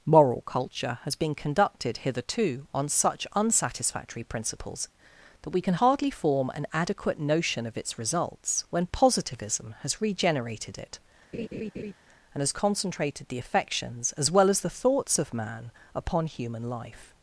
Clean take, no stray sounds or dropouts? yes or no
no